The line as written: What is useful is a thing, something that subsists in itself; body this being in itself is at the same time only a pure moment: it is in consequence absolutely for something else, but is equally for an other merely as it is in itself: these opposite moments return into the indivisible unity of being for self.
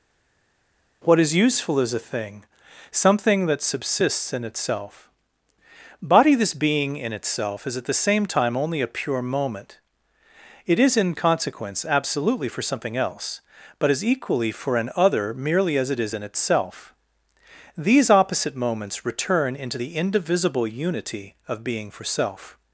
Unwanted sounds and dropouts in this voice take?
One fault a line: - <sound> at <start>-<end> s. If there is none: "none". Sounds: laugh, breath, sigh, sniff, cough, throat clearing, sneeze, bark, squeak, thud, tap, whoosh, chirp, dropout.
none